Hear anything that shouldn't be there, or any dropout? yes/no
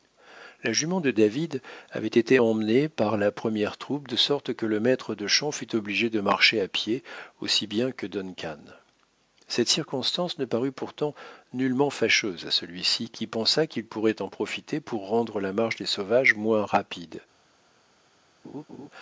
yes